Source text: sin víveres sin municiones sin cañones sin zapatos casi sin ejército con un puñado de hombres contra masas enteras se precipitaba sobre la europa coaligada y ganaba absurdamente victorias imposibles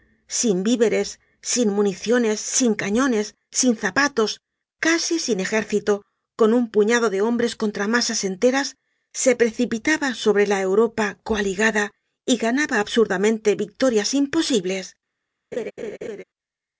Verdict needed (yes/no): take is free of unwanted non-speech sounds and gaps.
no